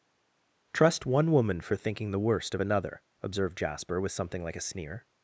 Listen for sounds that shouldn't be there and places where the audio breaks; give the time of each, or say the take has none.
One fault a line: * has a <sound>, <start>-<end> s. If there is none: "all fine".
all fine